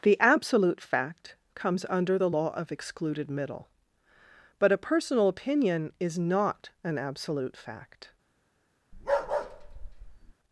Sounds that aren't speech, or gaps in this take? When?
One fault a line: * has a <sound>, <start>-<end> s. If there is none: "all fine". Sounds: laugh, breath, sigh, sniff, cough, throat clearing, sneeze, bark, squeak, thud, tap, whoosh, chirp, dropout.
* has a bark, 8.9-10.3 s